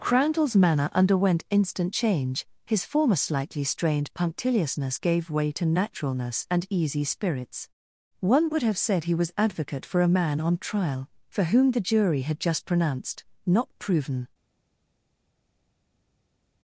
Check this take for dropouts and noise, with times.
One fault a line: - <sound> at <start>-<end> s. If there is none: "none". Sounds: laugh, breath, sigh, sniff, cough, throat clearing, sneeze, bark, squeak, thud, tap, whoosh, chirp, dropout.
none